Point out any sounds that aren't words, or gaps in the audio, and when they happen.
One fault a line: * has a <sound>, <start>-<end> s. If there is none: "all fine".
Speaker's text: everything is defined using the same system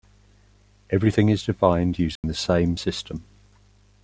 * has a dropout, 2.2-2.2 s